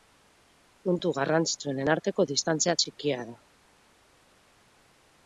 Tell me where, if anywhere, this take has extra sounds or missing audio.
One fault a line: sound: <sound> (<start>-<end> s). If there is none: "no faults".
no faults